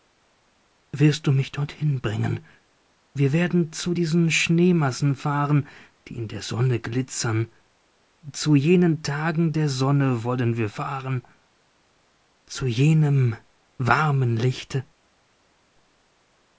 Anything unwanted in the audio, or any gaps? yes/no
no